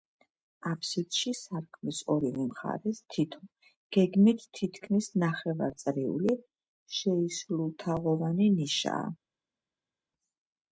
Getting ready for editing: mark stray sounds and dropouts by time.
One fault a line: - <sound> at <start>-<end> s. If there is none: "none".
none